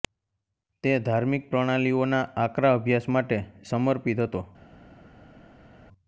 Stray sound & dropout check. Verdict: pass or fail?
pass